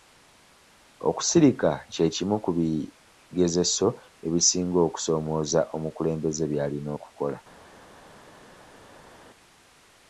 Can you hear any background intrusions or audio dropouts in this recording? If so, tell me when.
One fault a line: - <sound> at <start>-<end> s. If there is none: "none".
none